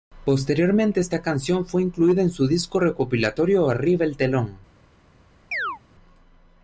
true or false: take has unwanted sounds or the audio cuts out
true